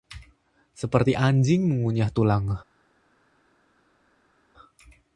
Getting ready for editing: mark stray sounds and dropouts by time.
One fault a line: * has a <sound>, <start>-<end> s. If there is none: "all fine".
all fine